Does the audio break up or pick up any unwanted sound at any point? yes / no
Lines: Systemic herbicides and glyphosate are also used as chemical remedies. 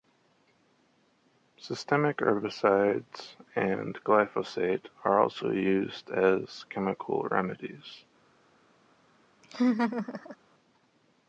yes